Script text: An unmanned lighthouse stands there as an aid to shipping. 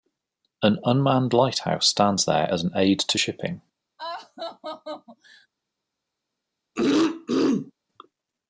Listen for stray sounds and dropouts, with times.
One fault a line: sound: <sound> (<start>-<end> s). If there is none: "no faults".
sound: laugh (4.0-5.5 s)
sound: throat clearing (6.8-7.7 s)